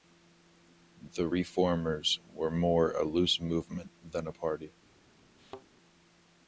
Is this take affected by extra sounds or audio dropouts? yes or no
yes